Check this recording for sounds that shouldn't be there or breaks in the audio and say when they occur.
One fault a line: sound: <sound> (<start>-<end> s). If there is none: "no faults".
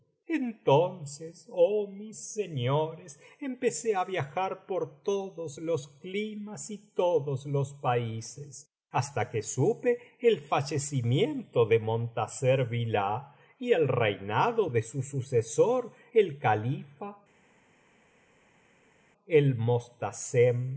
no faults